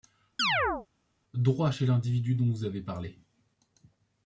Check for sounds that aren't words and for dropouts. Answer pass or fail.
fail